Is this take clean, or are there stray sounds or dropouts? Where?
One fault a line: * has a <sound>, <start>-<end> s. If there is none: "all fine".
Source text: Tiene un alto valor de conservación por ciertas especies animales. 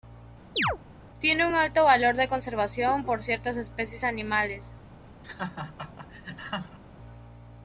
* has a chirp, 0.6-0.8 s
* has a laugh, 5.2-6.8 s